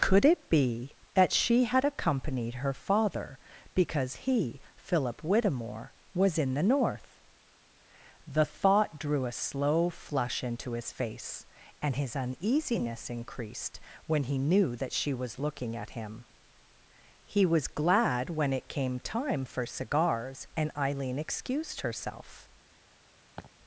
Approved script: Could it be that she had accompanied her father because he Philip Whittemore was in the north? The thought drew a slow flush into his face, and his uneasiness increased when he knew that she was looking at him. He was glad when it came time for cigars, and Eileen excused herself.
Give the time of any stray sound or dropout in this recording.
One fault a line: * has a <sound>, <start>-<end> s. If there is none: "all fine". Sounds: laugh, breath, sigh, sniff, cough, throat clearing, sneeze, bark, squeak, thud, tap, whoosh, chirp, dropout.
* has a laugh, 23.4-23.5 s